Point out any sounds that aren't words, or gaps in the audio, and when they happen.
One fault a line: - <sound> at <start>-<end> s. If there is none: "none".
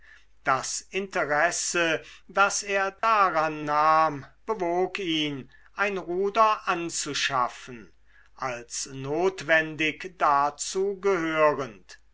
- dropout at 3.0-3.0 s